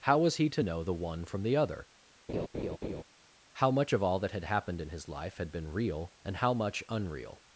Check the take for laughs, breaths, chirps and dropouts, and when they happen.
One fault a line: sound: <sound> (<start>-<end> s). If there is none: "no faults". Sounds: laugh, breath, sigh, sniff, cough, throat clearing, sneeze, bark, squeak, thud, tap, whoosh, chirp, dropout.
sound: laugh (2.3-3.0 s)